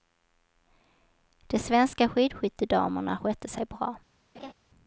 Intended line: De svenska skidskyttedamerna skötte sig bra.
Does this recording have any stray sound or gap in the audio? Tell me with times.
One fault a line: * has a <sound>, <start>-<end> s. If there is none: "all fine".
* has a laugh, 4.3-4.5 s